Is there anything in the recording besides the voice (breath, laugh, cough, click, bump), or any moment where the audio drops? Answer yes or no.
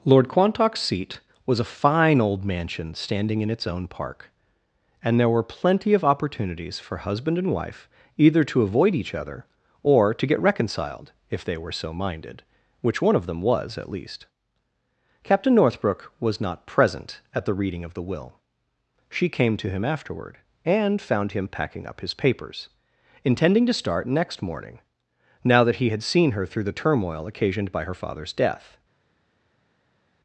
no